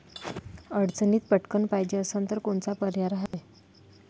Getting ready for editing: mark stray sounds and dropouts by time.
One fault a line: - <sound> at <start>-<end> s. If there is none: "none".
- dropout at 3.3-3.3 s